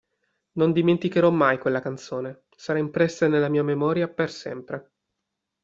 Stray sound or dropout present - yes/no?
no